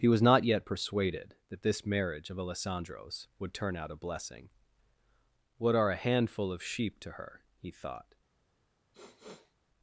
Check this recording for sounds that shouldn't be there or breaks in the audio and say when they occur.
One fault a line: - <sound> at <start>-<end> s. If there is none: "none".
- sniff at 8.9-9.5 s